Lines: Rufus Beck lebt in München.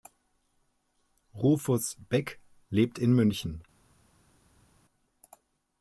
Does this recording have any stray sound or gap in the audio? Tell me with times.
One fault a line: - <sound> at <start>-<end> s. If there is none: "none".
none